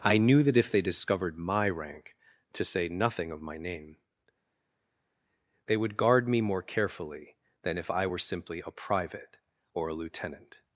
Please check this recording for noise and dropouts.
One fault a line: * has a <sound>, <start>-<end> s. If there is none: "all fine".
all fine